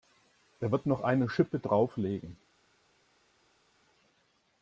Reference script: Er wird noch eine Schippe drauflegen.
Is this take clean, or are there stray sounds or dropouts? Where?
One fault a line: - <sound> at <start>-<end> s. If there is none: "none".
none